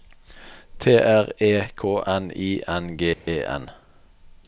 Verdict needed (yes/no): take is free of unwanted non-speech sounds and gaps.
no